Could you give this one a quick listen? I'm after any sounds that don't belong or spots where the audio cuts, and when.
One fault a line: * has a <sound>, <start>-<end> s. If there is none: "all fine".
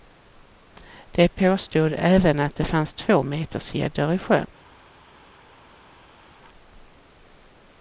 all fine